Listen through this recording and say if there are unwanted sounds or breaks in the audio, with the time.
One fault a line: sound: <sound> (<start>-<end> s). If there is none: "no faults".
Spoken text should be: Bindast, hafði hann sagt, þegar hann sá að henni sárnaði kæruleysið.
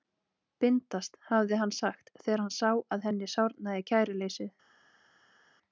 no faults